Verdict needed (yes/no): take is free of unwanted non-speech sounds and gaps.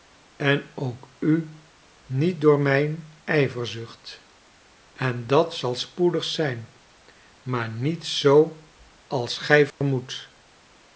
no